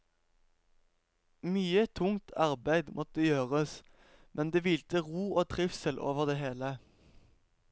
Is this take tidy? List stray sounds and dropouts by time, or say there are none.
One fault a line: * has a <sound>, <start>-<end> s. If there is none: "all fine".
all fine